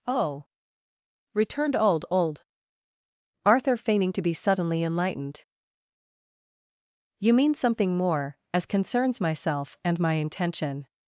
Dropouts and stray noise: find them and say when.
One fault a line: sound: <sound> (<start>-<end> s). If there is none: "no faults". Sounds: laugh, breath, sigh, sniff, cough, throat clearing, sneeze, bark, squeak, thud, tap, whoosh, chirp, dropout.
no faults